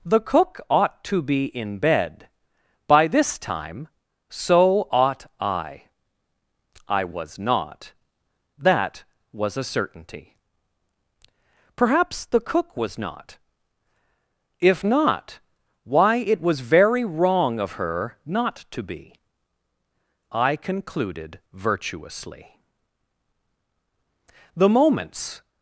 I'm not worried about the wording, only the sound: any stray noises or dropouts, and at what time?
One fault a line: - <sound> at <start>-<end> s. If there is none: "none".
none